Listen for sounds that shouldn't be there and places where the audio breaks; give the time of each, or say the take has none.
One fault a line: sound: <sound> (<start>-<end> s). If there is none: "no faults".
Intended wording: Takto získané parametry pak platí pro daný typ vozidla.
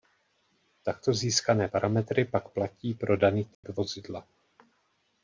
sound: dropout (3.5-3.6 s)